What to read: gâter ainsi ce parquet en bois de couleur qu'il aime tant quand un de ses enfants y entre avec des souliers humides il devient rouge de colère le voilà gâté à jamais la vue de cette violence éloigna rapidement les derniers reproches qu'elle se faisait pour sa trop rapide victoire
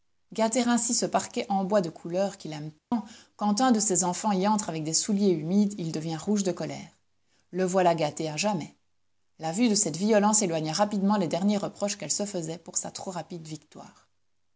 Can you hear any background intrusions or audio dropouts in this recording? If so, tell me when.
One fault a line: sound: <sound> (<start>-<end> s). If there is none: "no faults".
sound: dropout (2.8-2.9 s)